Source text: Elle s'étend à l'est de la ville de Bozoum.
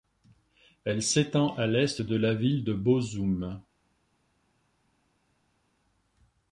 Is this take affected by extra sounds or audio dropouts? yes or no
no